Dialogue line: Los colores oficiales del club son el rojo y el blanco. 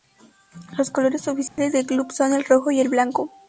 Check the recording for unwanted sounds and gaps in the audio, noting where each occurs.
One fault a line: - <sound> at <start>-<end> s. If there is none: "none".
- dropout at 1.5-1.6 s